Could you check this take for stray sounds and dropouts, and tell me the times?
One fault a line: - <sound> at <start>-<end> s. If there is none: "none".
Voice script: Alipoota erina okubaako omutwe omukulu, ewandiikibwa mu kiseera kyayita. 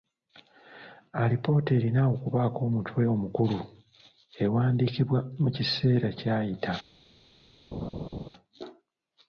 - laugh at 7.7-8.3 s